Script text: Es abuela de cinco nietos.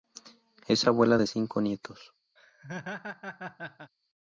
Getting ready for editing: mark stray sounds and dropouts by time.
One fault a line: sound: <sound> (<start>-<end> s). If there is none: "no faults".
sound: laugh (2.4-3.9 s)